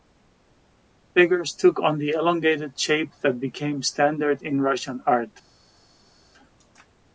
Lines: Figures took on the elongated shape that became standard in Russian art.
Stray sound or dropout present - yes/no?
no